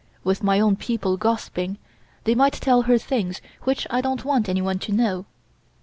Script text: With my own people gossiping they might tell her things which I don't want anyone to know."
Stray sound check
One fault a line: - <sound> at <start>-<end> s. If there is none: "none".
none